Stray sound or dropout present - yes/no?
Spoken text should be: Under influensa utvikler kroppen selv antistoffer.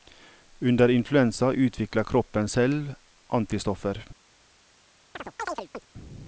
yes